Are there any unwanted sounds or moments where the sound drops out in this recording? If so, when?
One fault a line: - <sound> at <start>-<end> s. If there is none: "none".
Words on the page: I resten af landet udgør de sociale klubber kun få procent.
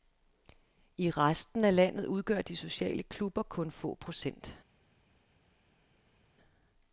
none